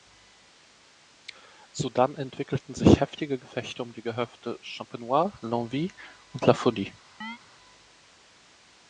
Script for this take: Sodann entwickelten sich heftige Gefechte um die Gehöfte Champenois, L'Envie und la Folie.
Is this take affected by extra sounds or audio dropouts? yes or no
yes